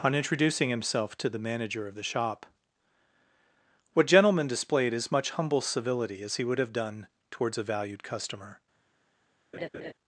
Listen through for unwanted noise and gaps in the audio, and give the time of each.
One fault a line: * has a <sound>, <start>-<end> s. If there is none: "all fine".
* has a laugh, 9.5-9.9 s